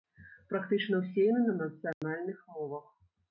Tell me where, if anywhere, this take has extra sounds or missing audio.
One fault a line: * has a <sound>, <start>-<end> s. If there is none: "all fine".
* has a dropout, 1.9-2.0 s